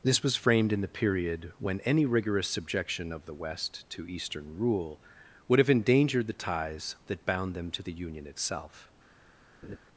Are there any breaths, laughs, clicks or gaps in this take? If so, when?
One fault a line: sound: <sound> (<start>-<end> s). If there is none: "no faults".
sound: laugh (9.6-9.8 s)